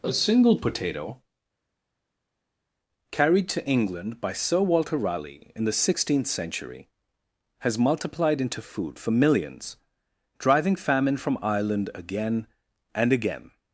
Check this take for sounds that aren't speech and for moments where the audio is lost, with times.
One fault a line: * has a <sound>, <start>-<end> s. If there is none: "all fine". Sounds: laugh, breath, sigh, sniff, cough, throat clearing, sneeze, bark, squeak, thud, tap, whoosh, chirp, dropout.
all fine